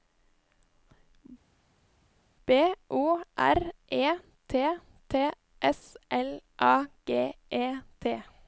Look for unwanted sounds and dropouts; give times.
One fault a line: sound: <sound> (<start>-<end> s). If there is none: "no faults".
no faults